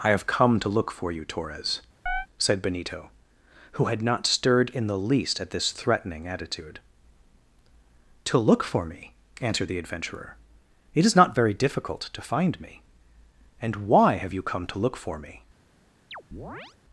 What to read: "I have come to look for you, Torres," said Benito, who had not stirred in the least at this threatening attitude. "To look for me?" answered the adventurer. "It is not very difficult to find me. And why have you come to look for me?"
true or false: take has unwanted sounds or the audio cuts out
true